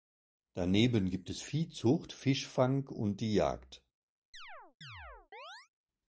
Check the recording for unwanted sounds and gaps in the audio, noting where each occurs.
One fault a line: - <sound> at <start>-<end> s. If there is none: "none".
- chirp at 4.3-5.7 s